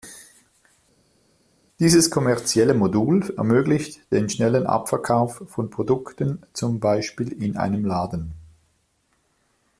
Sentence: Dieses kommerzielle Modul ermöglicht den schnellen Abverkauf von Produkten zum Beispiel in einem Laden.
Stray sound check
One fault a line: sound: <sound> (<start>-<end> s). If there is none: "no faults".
no faults